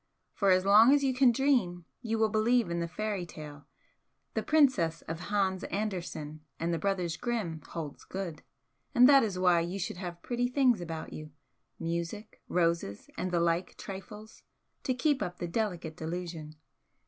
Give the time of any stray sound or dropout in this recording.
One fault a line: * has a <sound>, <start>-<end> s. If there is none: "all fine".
all fine